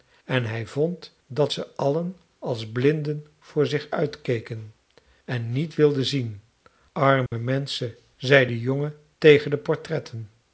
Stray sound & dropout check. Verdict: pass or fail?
fail